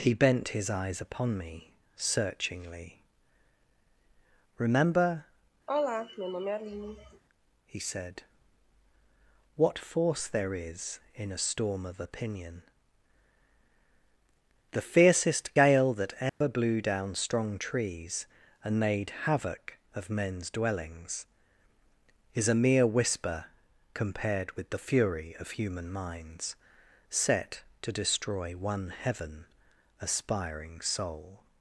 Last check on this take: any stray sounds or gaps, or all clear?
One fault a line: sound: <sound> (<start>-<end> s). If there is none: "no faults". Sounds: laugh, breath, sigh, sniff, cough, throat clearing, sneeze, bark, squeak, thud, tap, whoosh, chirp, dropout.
sound: sigh (5.7-7.2 s)
sound: dropout (16.3-16.4 s)